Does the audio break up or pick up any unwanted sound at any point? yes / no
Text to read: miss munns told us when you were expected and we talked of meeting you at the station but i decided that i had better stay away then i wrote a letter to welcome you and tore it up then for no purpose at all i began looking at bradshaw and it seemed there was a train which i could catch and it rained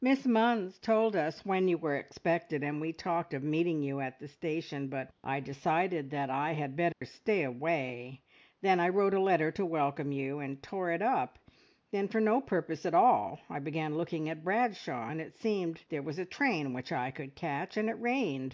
yes